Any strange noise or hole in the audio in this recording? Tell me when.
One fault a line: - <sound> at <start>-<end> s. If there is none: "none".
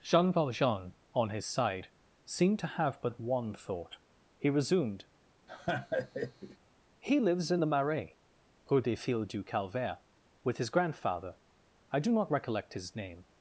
- laugh at 5.5-6.6 s